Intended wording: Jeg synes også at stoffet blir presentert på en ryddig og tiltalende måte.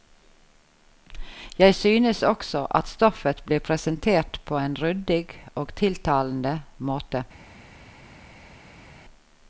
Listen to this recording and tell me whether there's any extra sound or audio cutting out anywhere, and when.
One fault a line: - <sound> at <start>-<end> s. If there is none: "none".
none